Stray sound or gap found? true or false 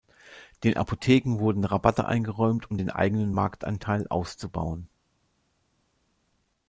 false